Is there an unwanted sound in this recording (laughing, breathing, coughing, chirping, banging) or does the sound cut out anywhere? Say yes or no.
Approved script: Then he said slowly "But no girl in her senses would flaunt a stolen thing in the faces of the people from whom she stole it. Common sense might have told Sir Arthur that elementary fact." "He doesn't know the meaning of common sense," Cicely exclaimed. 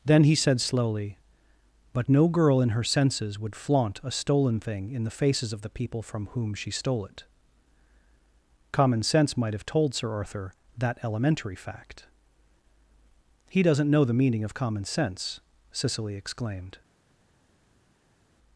no